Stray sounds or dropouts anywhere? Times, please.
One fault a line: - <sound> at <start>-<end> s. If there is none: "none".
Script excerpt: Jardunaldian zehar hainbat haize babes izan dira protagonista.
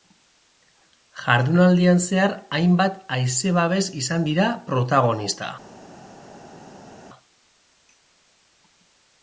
none